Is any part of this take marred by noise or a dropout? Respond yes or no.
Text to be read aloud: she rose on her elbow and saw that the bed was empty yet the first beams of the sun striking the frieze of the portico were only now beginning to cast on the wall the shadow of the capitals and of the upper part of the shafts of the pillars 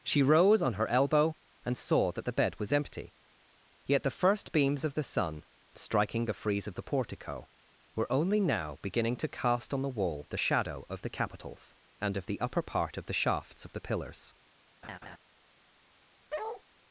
yes